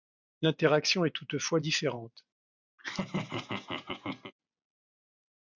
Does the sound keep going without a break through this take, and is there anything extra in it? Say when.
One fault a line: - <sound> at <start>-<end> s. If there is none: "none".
- laugh at 2.8-4.3 s